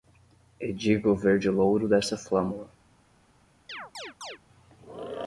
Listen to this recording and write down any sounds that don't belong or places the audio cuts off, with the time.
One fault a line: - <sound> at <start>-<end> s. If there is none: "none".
- chirp at 3.7-4.4 s